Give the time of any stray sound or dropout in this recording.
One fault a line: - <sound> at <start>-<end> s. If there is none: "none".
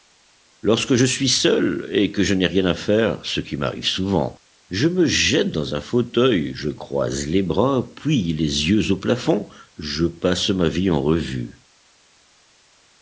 none